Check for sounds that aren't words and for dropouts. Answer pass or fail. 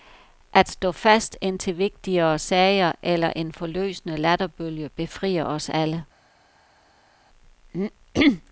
pass